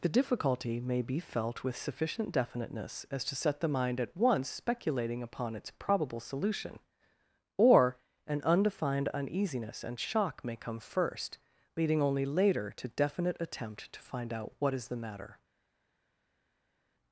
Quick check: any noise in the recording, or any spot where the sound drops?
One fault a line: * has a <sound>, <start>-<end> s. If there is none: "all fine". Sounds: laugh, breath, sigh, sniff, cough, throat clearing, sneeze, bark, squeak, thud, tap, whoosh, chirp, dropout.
all fine